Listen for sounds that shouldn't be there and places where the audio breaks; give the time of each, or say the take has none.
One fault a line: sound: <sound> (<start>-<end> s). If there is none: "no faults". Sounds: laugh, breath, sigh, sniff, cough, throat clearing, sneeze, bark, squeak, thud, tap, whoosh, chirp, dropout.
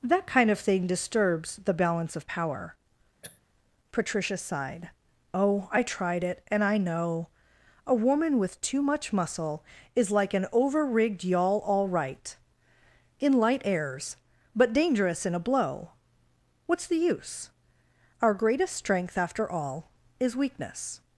sound: throat clearing (3.2-3.4 s)